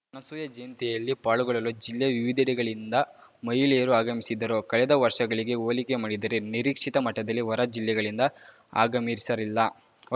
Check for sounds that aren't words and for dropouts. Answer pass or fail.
pass